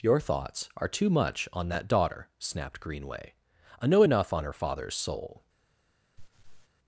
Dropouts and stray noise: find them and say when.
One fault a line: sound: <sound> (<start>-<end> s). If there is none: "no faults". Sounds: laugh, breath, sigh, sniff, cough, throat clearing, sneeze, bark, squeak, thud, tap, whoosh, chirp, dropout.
sound: laugh (6.2-6.7 s)